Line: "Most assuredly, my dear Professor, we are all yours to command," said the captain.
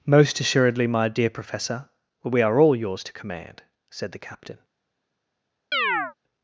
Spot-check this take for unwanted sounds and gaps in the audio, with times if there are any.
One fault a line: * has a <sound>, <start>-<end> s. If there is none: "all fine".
* has a chirp, 5.7-6.1 s